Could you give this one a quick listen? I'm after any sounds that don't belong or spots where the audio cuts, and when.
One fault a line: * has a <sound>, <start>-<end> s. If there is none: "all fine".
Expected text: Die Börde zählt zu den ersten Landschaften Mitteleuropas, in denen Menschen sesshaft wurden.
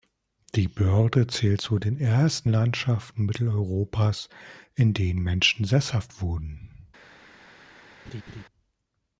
* has a laugh, 8.0-8.4 s